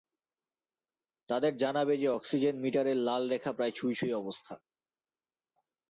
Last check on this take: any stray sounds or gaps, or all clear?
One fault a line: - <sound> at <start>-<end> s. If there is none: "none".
none